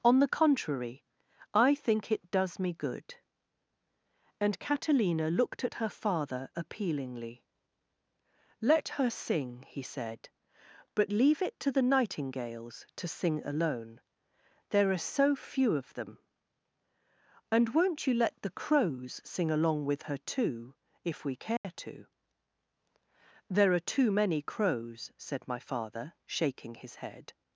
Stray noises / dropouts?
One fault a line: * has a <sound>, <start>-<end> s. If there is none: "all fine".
* has a dropout, 21.6-21.6 s